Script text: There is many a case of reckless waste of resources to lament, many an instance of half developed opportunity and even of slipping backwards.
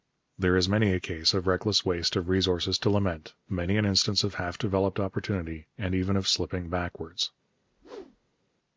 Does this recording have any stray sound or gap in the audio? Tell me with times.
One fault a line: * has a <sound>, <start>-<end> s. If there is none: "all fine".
* has a whoosh, 7.6-8.4 s